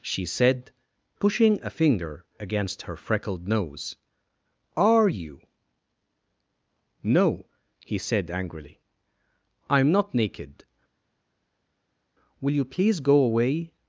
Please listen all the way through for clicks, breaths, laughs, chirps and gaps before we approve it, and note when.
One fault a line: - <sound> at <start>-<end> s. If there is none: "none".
none